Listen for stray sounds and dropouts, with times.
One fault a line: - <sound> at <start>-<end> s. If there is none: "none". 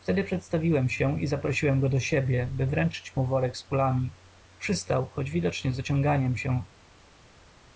none